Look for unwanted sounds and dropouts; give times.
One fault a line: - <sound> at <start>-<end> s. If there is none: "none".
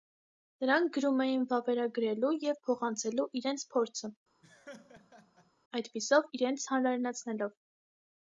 - laugh at 4.4-5.5 s